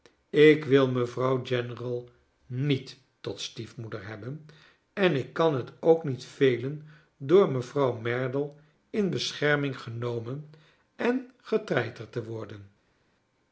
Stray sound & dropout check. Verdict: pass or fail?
pass